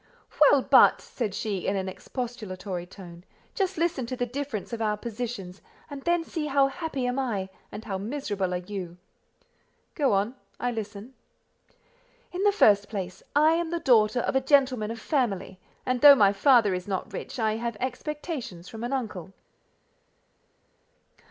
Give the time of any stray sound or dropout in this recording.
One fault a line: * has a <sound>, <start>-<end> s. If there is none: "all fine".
all fine